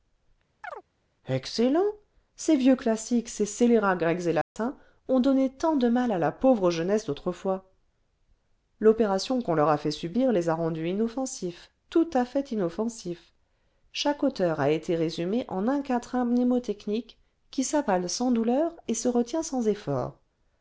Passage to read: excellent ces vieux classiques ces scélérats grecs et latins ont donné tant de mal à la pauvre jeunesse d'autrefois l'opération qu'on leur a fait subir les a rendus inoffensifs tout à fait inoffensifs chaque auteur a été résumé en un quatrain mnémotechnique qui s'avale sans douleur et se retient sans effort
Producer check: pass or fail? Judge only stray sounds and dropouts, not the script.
fail